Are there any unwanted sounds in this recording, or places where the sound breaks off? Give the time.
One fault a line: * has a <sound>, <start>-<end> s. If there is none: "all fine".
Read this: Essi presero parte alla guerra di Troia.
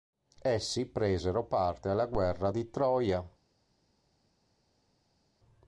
all fine